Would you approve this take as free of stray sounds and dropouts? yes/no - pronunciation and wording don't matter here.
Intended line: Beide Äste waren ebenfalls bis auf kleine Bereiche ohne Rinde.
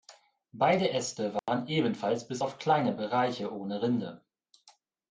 no